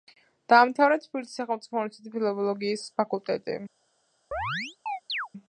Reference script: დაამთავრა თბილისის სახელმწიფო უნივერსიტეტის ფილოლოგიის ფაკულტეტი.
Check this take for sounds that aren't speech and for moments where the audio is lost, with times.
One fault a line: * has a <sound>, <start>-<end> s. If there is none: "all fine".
* has a chirp, 4.3-5.3 s